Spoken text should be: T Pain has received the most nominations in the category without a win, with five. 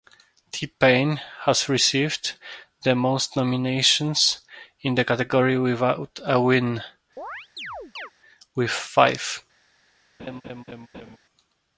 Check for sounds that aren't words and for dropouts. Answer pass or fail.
fail